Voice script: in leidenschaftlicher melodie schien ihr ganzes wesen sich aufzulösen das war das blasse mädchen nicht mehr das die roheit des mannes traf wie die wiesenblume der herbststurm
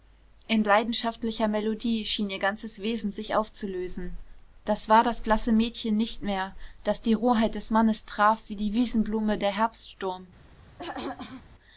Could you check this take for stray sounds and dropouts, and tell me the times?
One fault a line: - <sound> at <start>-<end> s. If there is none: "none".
- throat clearing at 10.8-11.5 s